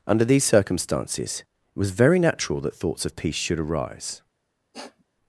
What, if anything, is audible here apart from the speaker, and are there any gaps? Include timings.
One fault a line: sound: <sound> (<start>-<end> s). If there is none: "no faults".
sound: sniff (4.7-5.0 s)